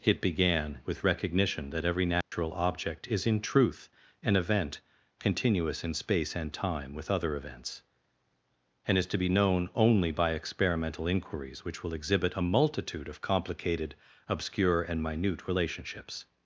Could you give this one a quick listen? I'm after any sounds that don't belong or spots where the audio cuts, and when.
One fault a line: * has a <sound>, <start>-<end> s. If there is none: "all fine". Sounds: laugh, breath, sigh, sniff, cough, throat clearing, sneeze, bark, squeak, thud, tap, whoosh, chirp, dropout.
* has a dropout, 2.2-2.3 s